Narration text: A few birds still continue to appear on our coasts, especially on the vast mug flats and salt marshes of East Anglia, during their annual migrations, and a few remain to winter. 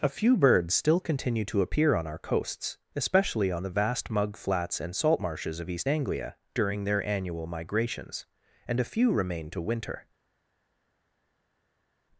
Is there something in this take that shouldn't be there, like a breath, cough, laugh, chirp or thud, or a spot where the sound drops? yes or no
no